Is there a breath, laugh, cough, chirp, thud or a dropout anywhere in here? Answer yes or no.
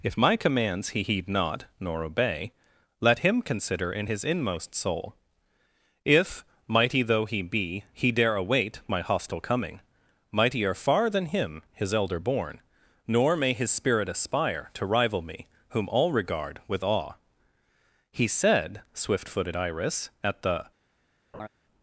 yes